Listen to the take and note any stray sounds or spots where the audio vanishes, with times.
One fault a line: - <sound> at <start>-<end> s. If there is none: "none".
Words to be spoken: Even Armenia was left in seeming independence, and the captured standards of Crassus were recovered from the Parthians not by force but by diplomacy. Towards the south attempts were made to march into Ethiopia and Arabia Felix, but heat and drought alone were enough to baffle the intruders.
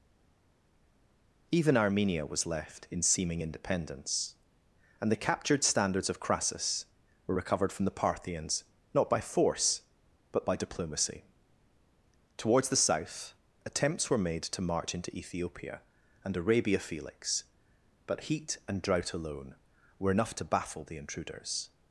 none